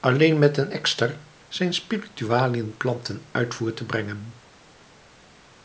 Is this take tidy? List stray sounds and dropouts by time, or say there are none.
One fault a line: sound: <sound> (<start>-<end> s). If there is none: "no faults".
no faults